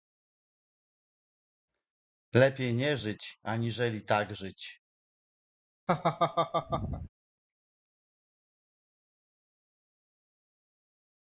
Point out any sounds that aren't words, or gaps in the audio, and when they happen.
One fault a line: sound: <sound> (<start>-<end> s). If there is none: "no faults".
sound: laugh (5.9-7.1 s)